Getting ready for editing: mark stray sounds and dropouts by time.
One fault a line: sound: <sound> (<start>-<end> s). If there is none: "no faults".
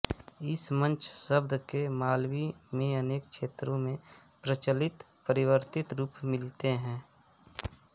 no faults